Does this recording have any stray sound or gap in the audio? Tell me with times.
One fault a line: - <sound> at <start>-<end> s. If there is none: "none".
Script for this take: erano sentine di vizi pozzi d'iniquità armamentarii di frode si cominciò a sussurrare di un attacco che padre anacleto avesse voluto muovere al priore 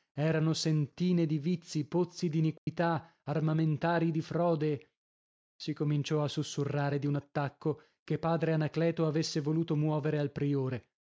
- dropout at 2.6-2.7 s